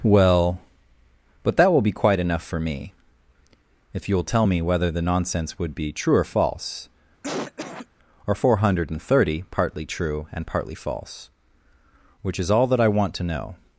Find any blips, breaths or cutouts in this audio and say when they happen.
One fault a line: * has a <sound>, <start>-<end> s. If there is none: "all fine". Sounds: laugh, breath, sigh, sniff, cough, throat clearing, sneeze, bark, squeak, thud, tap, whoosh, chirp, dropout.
* has a cough, 7.2-7.9 s